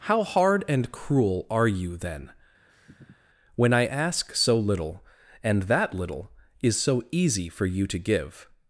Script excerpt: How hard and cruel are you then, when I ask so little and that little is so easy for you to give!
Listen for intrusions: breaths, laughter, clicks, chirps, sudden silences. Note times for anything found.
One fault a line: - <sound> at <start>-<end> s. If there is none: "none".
- sniff at 2.7-3.3 s